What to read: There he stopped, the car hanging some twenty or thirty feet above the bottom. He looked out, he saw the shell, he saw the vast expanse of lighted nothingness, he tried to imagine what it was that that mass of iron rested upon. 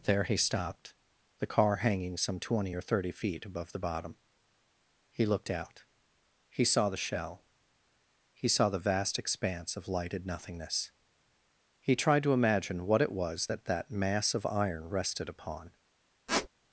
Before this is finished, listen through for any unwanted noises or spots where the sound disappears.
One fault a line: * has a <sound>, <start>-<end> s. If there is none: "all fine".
* has a squeak, 16.3-16.5 s